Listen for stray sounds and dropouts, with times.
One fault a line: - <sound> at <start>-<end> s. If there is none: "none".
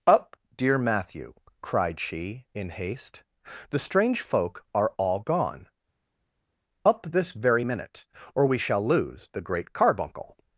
none